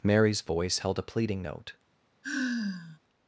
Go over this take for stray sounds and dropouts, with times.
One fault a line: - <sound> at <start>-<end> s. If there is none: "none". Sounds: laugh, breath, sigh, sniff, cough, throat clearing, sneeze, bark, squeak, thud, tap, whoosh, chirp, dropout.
- sigh at 2.2-3.0 s